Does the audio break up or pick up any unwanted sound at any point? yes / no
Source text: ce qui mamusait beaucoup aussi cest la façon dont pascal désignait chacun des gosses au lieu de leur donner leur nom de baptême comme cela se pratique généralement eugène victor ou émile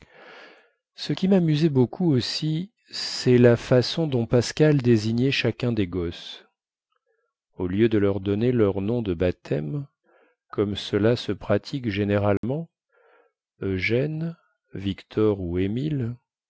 yes